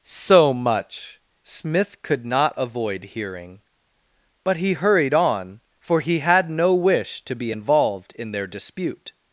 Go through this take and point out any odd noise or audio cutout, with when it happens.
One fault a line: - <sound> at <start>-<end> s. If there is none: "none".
none